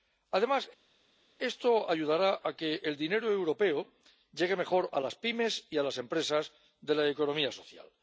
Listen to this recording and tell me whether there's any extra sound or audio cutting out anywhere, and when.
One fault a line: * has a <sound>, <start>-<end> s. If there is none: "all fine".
all fine